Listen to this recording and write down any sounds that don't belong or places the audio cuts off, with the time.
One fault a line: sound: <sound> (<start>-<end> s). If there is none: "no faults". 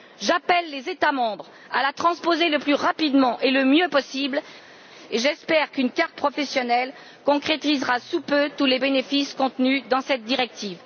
no faults